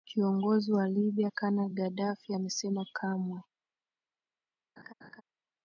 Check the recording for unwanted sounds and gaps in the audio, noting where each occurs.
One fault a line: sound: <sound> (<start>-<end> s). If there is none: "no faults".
sound: laugh (4.8-5.2 s)